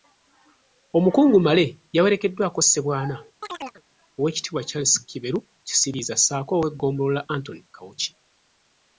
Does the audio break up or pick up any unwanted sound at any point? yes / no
yes